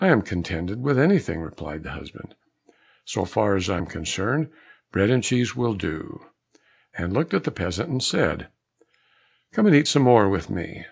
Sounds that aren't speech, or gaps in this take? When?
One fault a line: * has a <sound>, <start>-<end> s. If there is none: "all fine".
all fine